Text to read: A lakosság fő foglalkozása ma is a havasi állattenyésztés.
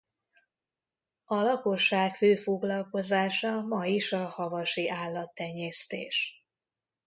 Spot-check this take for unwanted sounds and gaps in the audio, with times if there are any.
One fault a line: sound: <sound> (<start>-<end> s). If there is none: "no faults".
no faults